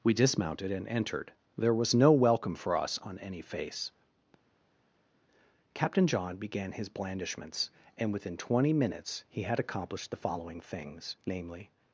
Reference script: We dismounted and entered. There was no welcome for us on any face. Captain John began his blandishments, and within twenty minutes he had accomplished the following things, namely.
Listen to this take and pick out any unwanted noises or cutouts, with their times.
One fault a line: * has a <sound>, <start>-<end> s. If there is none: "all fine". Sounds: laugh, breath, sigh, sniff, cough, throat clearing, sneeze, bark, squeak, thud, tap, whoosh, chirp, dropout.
all fine